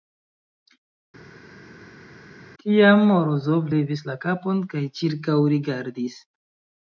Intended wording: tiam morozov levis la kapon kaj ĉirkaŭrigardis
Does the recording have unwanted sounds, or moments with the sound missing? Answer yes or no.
no